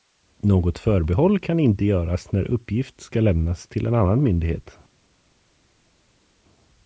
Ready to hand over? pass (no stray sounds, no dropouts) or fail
pass